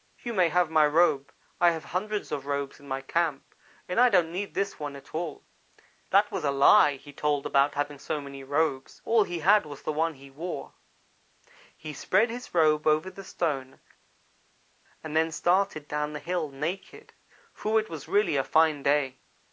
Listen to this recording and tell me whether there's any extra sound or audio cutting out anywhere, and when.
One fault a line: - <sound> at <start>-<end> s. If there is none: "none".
none